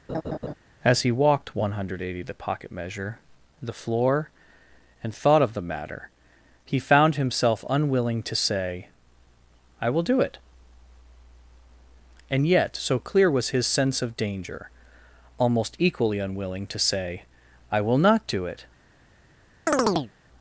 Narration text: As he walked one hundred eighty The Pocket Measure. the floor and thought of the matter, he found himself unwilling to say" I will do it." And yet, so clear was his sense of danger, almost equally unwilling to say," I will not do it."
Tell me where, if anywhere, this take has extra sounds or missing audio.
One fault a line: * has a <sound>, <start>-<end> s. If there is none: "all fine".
* has a laugh, 0.1-0.5 s
* has a chirp, 19.7-20.1 s